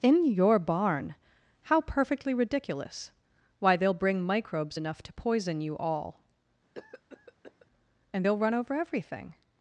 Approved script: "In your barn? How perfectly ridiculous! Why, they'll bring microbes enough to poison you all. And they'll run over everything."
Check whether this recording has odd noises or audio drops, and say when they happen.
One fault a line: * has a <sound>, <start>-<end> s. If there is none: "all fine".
* has a cough, 6.7-7.7 s